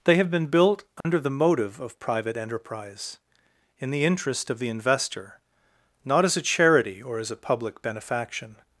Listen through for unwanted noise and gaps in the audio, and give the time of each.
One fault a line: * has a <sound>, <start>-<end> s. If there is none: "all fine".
* has a dropout, 1.0-1.1 s